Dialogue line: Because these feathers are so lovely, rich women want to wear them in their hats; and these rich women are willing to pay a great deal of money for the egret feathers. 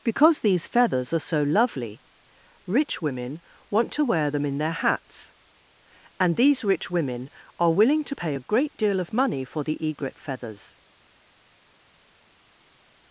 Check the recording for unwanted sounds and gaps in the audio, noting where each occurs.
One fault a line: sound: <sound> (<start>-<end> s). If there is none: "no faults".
no faults